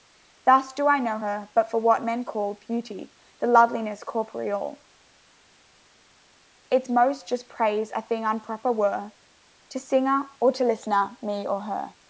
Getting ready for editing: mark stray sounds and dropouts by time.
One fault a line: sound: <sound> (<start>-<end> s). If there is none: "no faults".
no faults